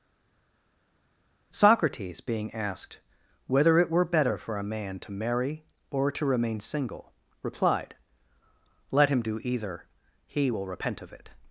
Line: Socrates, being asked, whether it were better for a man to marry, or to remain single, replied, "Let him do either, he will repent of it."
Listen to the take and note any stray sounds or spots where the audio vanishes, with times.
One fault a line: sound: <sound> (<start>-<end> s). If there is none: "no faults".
no faults